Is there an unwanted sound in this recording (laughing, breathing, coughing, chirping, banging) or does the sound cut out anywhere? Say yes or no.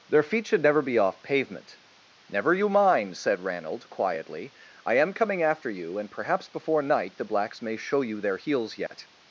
yes